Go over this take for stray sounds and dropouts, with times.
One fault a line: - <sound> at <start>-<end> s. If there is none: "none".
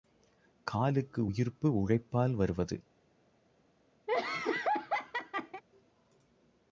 - laugh at 4.1-5.6 s